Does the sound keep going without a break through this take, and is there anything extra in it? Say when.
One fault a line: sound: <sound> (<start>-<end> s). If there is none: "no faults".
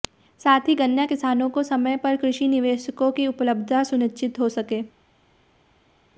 no faults